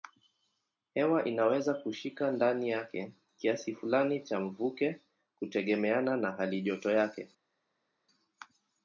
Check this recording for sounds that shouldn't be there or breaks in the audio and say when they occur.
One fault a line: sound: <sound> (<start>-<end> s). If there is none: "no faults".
no faults